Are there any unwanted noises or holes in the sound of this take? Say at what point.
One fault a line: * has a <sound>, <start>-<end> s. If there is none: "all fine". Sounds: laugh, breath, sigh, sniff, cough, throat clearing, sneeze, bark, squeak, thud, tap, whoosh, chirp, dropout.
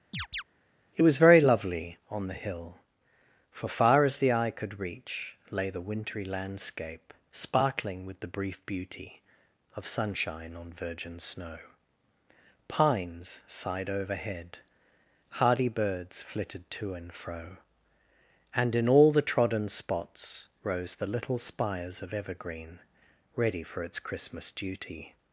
* has a chirp, 0.1-0.4 s